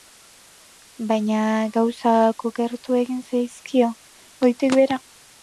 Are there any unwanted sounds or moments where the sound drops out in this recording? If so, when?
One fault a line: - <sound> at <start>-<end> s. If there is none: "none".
none